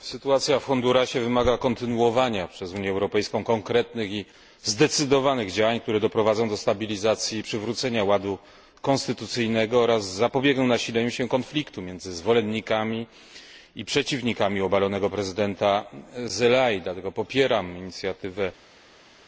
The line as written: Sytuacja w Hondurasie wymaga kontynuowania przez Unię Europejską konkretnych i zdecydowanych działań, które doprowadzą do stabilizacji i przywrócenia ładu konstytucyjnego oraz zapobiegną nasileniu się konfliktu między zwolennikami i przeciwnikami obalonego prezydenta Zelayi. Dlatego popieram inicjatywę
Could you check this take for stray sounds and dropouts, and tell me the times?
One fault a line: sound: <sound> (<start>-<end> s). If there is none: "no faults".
no faults